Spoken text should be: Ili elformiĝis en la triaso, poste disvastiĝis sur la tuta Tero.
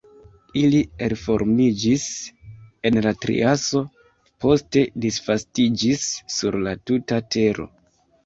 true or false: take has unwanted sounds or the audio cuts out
false